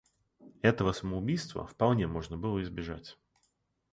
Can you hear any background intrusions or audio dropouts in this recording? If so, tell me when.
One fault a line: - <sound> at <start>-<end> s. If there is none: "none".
none